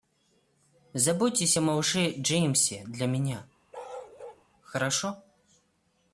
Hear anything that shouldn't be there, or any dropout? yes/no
yes